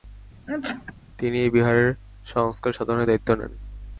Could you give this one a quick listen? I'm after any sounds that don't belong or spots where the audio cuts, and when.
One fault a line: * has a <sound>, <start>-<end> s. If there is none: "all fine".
* has a sneeze, 0.5-0.9 s